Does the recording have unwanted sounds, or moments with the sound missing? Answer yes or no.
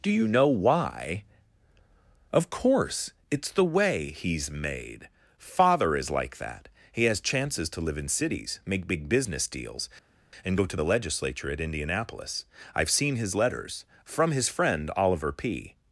no